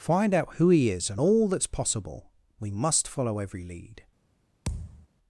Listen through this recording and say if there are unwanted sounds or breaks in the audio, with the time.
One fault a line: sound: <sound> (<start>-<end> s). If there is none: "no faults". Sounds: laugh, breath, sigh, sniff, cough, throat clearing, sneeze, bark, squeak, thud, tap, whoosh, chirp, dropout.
sound: thud (4.7-5.1 s)